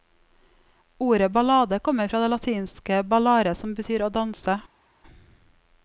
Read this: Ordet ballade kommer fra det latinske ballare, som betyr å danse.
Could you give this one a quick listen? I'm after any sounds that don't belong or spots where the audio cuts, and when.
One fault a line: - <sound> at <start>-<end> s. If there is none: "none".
none